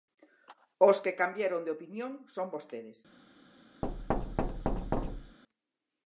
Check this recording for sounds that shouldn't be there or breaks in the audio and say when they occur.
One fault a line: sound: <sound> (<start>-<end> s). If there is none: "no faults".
sound: thud (3.8-5.4 s)